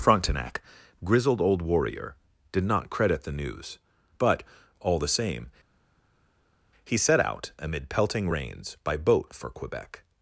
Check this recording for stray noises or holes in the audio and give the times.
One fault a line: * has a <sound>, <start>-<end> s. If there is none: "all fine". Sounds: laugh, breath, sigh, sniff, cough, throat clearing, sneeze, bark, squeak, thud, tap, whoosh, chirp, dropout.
all fine